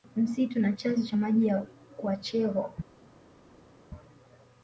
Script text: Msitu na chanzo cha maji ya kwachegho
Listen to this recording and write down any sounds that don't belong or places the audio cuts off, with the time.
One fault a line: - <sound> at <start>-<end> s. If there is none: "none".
none